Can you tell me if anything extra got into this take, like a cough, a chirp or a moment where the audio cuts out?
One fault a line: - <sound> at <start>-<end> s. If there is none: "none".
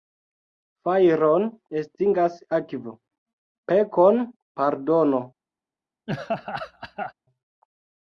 - laugh at 6.1-7.1 s